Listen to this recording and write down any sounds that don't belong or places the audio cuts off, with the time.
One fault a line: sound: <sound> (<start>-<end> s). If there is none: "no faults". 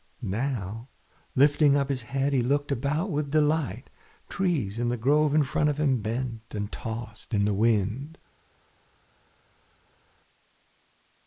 no faults